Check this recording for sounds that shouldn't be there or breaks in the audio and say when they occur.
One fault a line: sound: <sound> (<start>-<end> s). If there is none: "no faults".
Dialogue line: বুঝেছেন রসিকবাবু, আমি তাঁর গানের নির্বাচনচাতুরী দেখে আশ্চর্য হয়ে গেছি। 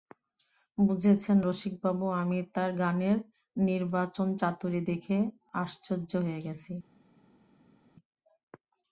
no faults